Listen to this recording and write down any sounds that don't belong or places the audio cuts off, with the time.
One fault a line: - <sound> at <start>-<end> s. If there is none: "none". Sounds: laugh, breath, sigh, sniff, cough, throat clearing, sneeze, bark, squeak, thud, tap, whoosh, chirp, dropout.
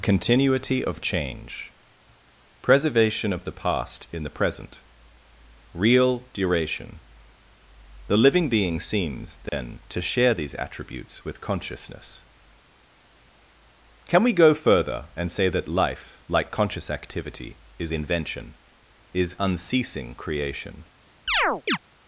- dropout at 9.5-9.5 s
- chirp at 21.3-21.8 s